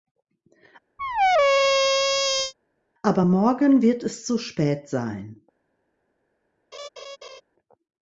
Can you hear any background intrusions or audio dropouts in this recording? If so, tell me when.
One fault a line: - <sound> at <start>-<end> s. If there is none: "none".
- squeak at 1.0-2.5 s
- laugh at 6.7-7.4 s